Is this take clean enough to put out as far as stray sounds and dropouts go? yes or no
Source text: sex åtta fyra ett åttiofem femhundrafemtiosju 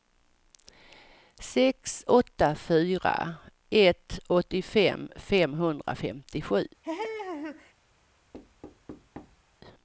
no